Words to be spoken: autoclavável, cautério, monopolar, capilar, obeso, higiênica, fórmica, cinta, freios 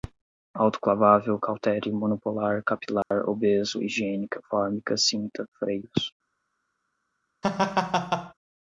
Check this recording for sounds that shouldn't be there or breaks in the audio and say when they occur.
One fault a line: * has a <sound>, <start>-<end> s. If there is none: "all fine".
* has a dropout, 3.0-3.1 s
* has a laugh, 7.4-8.3 s